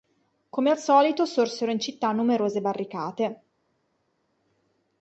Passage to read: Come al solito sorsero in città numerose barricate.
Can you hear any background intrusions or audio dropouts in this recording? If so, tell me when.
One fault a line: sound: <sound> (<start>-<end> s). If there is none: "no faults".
no faults